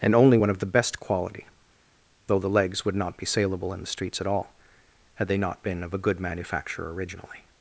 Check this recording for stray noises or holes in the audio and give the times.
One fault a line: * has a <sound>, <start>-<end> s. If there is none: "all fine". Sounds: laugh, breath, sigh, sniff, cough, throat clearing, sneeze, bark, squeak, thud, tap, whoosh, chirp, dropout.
all fine